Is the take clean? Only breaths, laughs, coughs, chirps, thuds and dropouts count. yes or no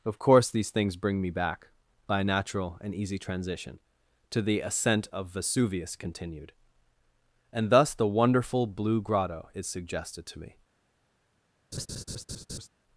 no